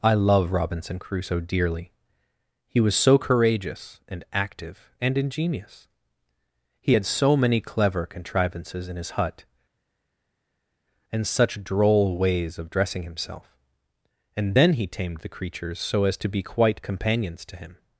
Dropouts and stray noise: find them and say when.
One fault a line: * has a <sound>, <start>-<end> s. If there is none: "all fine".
all fine